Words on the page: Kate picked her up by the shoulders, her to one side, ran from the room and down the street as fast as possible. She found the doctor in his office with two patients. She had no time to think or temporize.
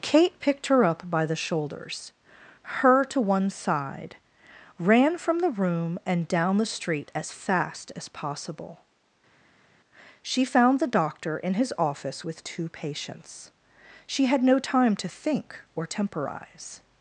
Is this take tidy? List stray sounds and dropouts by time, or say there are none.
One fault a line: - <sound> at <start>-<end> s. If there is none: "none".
none